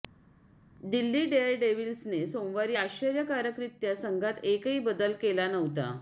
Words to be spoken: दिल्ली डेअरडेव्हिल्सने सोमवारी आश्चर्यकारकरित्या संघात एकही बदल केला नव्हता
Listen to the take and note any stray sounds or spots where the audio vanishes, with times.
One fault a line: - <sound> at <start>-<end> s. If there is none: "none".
none